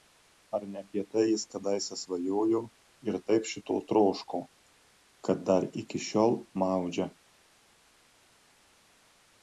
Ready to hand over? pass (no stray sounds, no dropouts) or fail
pass